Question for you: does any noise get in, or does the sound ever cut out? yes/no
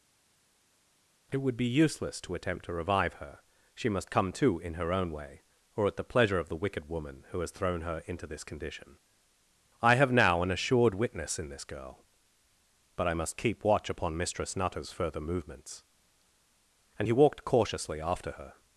no